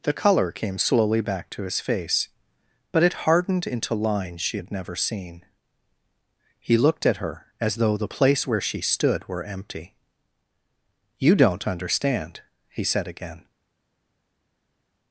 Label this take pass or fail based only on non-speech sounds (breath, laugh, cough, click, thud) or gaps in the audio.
pass